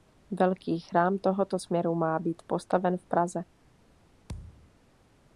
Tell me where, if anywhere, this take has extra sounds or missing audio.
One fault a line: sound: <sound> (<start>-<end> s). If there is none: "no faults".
sound: thud (4.3-4.7 s)